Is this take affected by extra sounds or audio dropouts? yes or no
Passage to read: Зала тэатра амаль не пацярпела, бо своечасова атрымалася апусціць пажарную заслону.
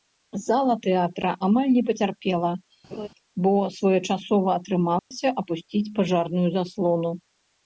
yes